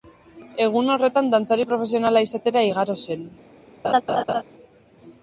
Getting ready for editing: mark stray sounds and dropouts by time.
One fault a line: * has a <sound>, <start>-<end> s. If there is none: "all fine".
* has a laugh, 3.8-4.4 s